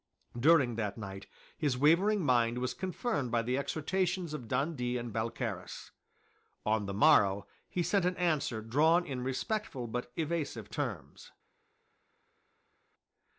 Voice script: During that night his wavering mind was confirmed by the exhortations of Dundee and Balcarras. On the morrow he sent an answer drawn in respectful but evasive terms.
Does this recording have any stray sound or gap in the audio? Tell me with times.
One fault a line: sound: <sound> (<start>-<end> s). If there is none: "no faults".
no faults